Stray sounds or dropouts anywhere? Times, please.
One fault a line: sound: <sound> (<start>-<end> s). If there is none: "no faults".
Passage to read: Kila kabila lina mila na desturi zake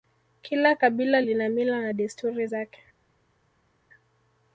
no faults